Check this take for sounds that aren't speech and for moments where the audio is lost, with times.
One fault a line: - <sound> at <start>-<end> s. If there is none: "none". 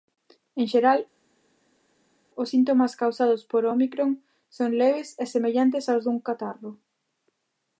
none